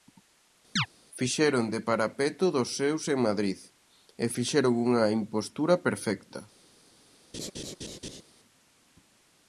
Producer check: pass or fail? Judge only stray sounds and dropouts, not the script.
fail